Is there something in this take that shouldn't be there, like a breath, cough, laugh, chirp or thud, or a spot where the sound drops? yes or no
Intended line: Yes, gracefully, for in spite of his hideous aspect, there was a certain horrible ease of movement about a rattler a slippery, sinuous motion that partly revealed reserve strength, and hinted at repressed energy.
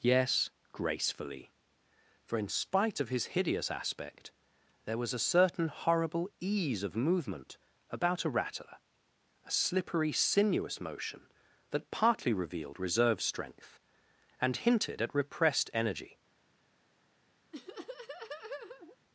yes